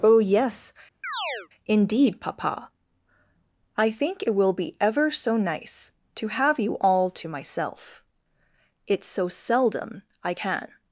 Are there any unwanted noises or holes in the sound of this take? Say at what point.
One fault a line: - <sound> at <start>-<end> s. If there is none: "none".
- chirp at 1.0-1.5 s